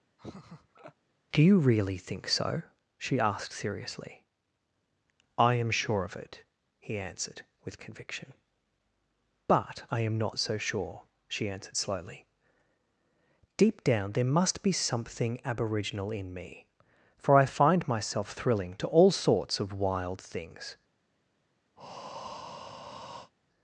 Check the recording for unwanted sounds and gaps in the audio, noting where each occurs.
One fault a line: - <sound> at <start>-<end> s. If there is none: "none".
- laugh at 0.2-0.9 s
- breath at 21.8-23.3 s